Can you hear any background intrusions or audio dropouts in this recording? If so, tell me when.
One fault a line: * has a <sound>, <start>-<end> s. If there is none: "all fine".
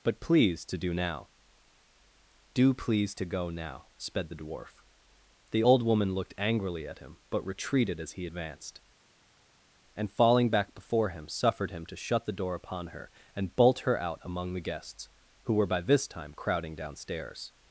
all fine